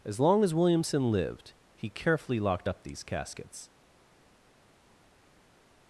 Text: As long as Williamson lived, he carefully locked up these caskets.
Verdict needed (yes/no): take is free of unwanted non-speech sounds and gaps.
yes